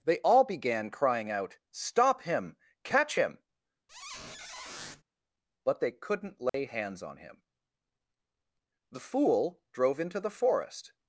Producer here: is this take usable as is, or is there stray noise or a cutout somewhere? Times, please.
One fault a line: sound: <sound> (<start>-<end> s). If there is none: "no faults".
sound: squeak (3.9-5.0 s)
sound: dropout (6.5-6.5 s)